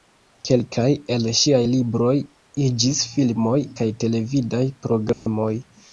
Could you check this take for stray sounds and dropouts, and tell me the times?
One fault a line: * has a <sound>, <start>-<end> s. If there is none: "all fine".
* has a dropout, 5.1-5.3 s